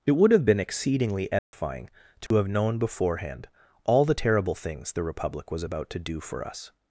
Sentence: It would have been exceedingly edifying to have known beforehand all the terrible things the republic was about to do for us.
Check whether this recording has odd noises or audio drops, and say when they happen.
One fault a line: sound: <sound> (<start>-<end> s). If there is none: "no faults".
sound: dropout (1.4-1.5 s)
sound: dropout (2.3-2.3 s)